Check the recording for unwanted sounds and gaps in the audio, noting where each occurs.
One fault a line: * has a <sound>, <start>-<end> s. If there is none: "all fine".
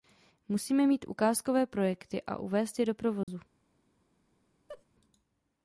* has a dropout, 3.2-3.3 s
* has a laugh, 4.7-4.8 s